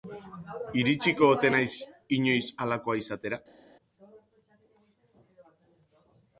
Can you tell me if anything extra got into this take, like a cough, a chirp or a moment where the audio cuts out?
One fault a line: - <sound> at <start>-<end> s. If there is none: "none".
none